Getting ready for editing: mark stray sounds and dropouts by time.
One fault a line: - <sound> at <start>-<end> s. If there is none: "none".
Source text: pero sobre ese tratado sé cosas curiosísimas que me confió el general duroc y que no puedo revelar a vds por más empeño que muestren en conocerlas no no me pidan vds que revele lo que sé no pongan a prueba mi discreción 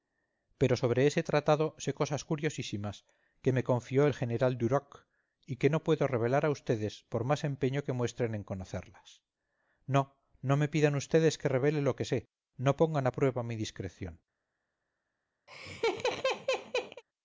- laugh at 15.5-17.0 s